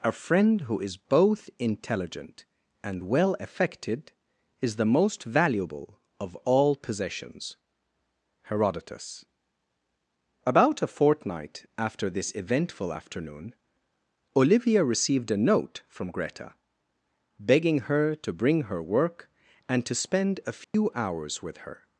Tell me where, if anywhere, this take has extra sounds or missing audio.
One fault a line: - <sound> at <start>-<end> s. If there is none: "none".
- dropout at 20.6-20.7 s